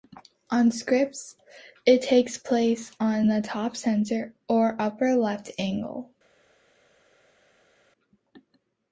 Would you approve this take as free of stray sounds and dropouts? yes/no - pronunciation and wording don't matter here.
yes